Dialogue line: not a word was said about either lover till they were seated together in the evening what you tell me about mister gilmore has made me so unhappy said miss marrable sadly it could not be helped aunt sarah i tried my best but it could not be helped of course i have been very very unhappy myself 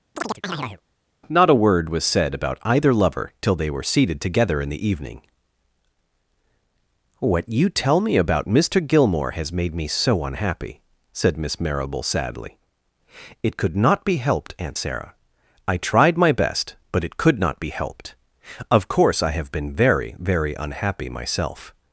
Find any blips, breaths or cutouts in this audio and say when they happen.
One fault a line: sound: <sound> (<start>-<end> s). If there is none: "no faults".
sound: chirp (0.2-0.8 s)